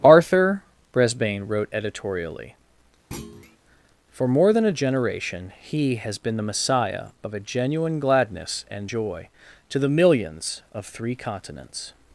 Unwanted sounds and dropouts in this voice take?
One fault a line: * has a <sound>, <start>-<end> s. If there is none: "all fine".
* has a thud, 3.1-3.6 s